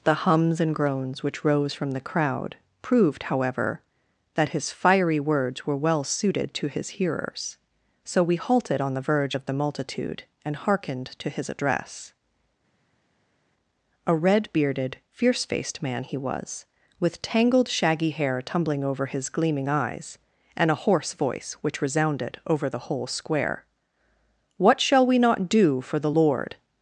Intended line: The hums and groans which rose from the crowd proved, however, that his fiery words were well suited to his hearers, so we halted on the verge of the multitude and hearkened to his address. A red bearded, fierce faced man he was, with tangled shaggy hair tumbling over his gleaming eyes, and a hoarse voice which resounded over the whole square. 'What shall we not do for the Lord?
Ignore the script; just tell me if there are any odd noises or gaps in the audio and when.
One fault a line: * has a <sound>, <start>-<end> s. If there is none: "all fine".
all fine